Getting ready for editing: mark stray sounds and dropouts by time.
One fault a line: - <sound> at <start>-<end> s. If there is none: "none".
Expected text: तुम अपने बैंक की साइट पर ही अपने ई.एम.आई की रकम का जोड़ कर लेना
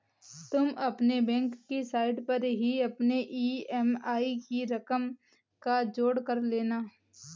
none